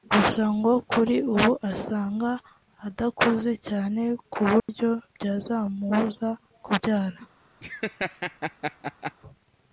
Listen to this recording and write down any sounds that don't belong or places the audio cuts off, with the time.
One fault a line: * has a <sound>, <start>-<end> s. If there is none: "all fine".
* has a dropout, 4.6-4.7 s
* has a laugh, 7.6-9.1 s